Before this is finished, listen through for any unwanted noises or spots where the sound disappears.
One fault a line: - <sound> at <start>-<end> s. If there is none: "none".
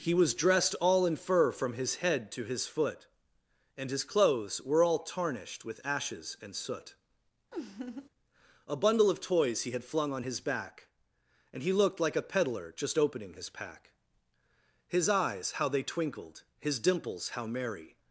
- laugh at 7.5-8.1 s